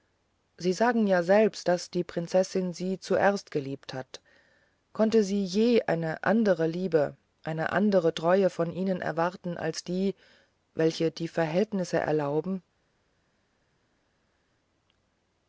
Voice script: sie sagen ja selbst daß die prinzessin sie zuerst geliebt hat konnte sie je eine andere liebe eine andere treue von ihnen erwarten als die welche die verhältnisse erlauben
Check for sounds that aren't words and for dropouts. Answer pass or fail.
pass